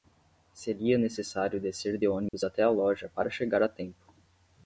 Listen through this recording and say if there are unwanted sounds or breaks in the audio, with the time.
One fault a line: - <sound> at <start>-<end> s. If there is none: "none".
- dropout at 2.3-2.3 s